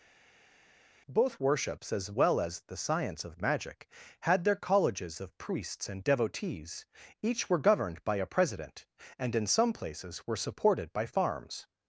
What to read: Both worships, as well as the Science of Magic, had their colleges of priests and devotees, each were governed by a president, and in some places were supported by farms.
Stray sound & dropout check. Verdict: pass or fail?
pass